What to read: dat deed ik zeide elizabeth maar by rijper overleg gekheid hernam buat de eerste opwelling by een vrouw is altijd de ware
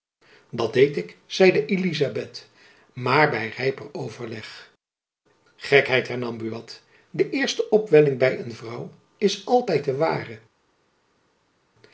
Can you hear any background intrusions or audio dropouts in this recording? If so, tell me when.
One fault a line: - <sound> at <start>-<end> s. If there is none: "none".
none